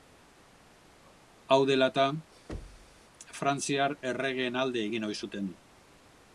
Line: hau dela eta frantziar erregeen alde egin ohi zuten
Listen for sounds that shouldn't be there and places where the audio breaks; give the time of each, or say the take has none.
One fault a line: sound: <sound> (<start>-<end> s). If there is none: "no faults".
sound: thud (2.5-3.0 s)